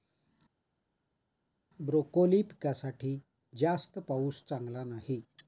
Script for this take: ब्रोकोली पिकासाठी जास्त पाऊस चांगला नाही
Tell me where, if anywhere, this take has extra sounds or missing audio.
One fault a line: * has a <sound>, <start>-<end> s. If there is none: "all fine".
all fine